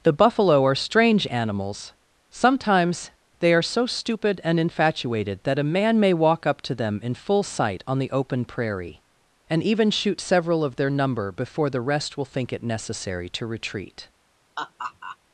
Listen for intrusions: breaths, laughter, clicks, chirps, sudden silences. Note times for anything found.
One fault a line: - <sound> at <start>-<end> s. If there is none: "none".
- laugh at 14.6-15.2 s